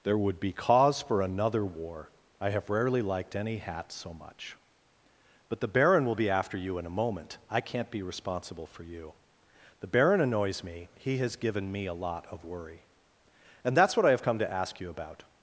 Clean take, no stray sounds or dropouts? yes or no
yes